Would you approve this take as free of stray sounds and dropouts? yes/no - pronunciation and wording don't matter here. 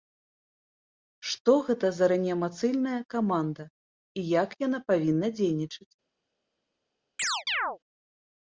no